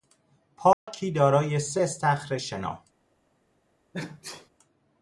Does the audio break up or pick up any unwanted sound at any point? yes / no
yes